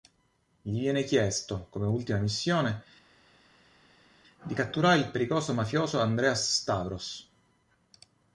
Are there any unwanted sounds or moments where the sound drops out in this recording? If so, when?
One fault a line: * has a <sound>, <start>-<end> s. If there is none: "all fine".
all fine